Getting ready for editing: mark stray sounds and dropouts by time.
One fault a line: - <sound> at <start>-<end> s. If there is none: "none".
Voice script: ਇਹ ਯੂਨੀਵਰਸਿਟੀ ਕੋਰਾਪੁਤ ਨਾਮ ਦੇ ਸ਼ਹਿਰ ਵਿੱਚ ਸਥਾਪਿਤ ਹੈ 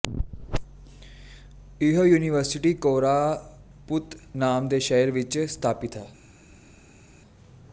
none